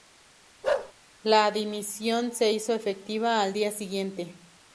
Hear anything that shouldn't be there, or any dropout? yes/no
yes